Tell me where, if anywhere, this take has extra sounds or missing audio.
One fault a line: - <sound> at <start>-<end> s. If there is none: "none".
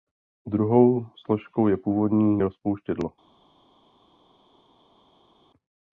none